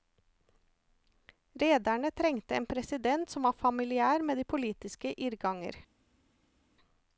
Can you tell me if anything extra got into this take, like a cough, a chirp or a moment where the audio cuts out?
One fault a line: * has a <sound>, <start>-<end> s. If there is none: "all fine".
all fine